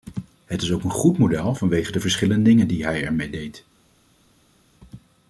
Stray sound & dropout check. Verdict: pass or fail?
pass